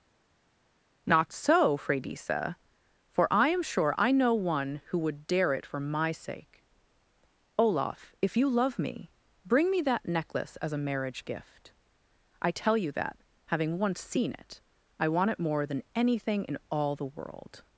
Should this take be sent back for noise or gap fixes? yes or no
no